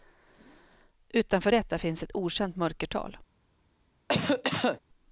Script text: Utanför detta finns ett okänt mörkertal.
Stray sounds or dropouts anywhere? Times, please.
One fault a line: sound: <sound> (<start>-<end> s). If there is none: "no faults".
sound: cough (4.1-4.8 s)